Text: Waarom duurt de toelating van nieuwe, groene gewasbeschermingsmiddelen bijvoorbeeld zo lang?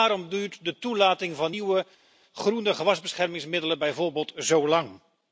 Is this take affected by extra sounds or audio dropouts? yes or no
no